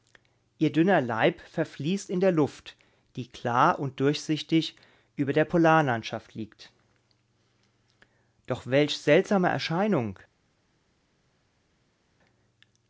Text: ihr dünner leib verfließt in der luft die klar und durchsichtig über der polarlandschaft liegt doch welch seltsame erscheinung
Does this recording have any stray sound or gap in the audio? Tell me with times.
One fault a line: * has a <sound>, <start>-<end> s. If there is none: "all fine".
all fine